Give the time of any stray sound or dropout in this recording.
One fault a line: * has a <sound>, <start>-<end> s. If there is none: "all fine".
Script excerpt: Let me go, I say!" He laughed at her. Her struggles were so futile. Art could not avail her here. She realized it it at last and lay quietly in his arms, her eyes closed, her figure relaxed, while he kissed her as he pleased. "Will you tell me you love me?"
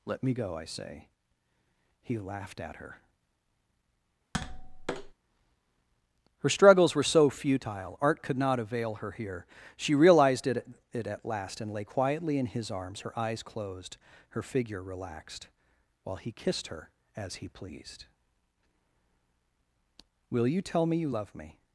* has a tap, 4.3-5.1 s